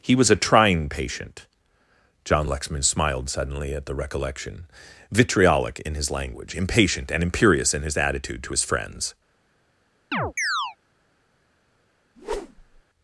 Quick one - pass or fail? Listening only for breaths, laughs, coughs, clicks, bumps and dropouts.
fail